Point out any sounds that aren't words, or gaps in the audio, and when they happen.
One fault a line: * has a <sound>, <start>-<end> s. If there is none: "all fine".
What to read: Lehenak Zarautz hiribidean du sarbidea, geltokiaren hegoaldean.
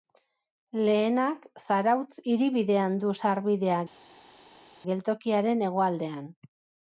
all fine